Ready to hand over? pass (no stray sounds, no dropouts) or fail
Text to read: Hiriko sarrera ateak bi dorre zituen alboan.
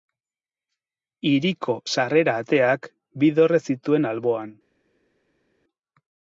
pass